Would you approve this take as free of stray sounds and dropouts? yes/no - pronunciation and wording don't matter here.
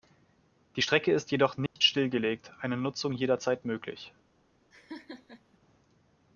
no